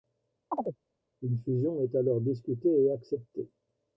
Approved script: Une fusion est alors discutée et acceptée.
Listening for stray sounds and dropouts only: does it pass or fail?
fail